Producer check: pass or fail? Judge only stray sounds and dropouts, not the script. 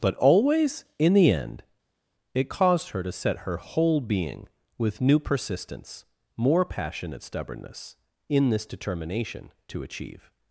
pass